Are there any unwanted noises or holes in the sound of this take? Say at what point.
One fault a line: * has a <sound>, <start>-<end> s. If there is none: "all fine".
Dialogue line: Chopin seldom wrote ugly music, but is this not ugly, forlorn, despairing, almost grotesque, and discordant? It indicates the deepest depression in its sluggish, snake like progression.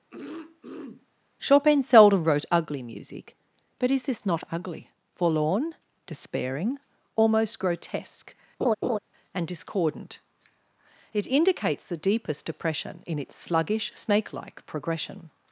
* has a throat clearing, 0.1-1.1 s
* has a laugh, 8.6-9.0 s